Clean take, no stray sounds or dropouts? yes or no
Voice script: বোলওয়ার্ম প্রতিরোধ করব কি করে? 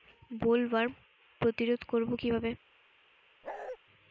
no